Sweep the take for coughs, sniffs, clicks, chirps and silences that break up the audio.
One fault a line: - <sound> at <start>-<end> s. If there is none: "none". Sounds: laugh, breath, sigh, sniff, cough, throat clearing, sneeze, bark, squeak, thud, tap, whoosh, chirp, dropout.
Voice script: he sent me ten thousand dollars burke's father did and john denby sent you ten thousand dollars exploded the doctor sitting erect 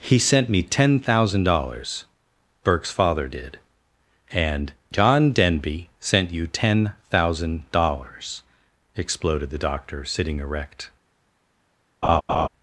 - laugh at 12.0-12.5 s